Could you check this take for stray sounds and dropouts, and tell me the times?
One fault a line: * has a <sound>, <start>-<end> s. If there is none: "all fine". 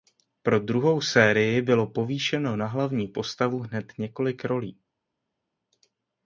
all fine